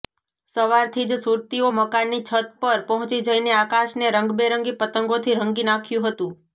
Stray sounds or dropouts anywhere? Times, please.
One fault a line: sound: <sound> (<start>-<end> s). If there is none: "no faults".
no faults